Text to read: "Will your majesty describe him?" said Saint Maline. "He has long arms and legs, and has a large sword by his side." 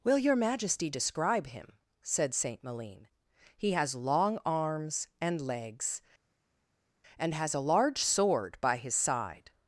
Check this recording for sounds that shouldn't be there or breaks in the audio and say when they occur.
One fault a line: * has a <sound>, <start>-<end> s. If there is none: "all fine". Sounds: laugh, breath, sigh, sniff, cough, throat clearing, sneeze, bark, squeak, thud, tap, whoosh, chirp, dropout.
all fine